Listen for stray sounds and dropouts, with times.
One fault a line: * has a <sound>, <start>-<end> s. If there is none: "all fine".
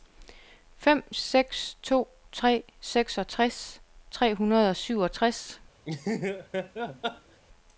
* has a laugh, 5.8-7.4 s